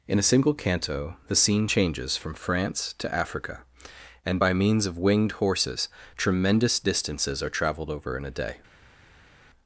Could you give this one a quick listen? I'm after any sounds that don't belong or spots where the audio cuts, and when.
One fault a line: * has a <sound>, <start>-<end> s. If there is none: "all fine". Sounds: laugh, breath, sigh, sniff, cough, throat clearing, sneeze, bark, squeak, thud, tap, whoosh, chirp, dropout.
all fine